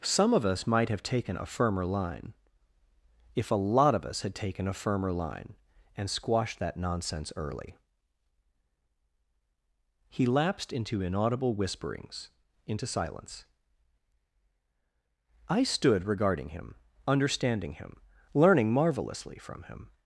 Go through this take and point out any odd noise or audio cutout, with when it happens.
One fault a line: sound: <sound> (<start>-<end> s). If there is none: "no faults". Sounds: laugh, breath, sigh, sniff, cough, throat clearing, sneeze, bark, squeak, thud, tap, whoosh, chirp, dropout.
no faults